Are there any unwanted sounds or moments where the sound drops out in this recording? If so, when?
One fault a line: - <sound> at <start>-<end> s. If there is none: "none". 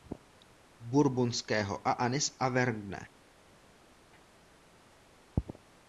none